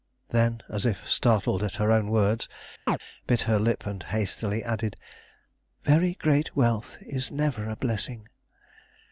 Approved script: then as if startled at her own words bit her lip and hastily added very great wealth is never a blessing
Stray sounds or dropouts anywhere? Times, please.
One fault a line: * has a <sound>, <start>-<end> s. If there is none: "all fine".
* has a chirp, 2.9-3.0 s